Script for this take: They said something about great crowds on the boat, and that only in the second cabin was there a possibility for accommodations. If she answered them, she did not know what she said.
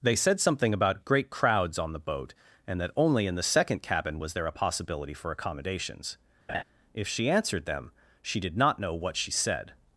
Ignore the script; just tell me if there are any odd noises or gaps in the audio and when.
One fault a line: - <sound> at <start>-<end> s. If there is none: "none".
- laugh at 6.5-6.6 s